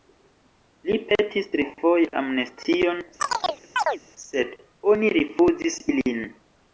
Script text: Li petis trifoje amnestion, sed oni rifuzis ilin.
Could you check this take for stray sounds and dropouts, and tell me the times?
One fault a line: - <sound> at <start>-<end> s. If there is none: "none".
- chirp at 3.2-4.0 s